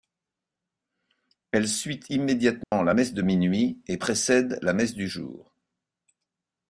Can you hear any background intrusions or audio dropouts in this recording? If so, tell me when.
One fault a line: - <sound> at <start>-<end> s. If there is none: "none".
- dropout at 2.6-2.7 s